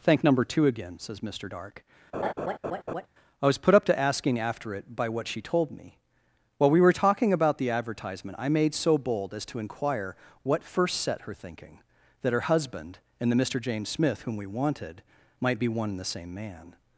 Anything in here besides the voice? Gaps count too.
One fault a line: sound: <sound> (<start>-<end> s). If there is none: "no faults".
sound: laugh (2.1-3.1 s)